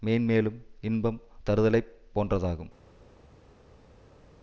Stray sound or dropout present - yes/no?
no